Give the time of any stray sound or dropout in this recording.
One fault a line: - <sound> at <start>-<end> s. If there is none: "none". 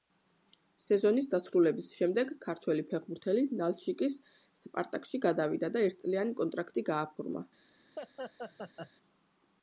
- laugh at 8.0-8.9 s